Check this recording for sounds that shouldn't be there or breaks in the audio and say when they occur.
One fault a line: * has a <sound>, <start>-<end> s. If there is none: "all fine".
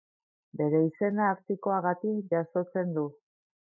all fine